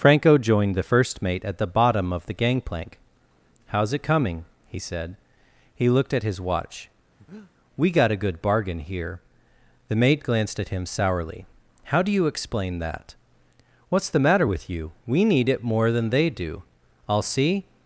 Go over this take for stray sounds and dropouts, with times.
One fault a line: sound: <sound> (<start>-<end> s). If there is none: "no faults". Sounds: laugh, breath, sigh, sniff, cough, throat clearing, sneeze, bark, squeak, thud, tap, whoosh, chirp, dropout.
sound: breath (7.2-7.5 s)